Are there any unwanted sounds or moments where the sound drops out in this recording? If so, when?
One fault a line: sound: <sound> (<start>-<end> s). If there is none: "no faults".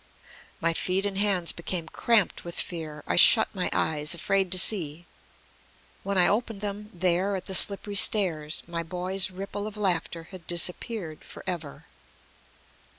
no faults